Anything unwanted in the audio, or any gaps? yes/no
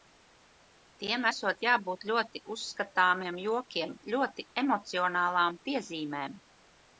no